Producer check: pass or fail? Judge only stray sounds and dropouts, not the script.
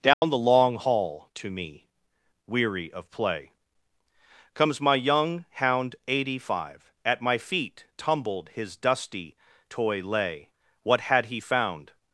fail